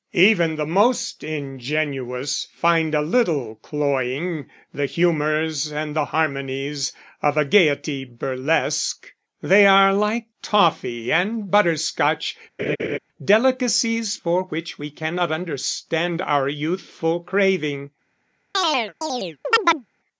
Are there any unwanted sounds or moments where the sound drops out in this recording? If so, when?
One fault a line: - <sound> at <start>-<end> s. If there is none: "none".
- laugh at 12.6-13.0 s
- chirp at 18.5-19.9 s